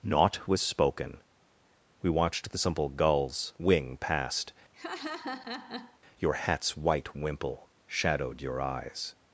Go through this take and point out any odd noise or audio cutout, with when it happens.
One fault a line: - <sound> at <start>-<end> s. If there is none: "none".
- laugh at 4.7-6.0 s